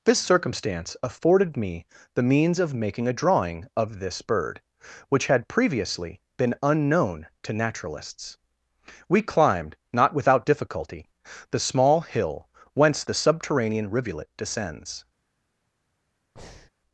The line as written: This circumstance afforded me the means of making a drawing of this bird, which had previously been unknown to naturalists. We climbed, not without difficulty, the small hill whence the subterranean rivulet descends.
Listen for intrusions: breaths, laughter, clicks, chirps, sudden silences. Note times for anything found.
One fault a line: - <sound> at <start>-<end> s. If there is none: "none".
- breath at 16.4-16.7 s